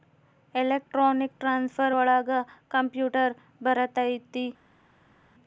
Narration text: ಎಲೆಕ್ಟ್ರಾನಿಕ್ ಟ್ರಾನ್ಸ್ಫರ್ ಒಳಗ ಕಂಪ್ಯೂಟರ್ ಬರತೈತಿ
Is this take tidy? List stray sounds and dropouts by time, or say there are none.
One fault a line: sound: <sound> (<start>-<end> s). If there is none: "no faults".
no faults